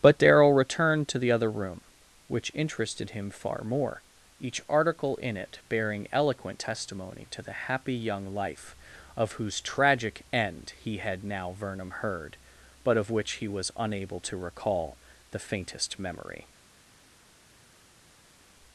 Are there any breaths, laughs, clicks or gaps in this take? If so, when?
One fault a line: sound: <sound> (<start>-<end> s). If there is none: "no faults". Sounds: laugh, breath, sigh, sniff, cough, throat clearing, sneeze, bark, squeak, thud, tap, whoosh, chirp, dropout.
no faults